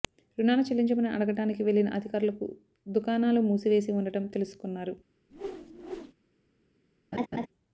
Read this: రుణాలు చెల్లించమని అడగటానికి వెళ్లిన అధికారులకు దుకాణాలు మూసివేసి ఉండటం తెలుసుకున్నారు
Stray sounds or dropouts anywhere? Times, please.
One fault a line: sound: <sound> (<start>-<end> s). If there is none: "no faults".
sound: whoosh (5.3-6.1 s)
sound: laugh (7.1-7.5 s)